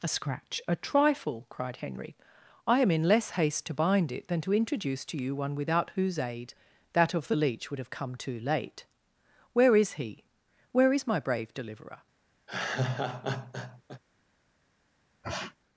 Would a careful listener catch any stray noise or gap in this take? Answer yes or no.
yes